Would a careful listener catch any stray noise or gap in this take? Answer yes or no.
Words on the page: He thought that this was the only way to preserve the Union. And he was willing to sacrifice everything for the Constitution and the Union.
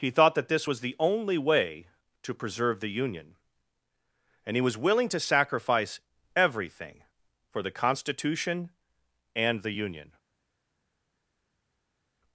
no